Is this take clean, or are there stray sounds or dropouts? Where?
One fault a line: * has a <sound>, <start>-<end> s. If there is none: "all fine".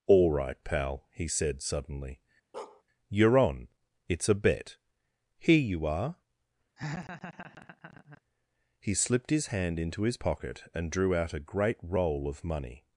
* has a bark, 2.5-2.8 s
* has a laugh, 6.8-8.2 s